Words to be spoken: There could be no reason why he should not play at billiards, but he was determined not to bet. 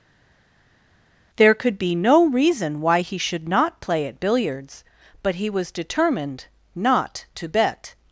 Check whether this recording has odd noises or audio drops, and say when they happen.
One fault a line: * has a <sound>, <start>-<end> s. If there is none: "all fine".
all fine